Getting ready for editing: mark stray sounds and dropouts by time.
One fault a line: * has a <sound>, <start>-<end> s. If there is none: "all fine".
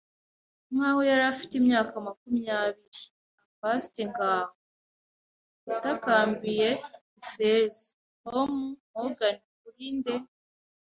all fine